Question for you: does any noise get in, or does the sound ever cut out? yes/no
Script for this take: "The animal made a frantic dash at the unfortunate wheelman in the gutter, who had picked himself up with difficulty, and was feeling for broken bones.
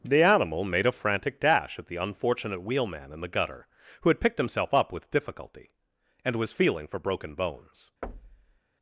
yes